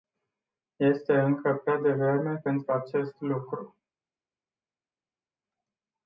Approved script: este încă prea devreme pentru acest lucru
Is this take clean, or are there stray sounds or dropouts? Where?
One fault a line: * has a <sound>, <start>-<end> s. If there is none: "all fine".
all fine